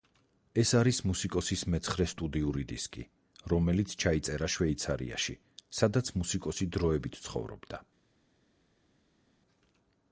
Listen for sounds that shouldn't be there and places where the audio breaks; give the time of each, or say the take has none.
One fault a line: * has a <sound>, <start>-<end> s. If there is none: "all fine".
all fine